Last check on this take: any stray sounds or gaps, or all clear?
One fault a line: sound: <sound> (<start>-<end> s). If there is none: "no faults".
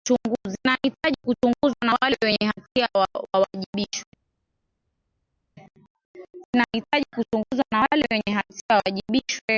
no faults